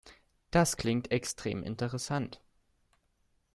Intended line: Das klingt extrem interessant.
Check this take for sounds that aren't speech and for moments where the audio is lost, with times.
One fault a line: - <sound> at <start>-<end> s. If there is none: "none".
none